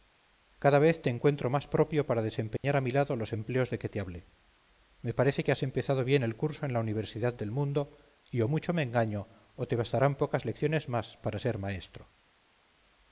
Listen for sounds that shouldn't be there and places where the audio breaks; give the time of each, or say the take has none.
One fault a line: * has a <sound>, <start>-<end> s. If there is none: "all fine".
* has a dropout, 2.6-2.6 s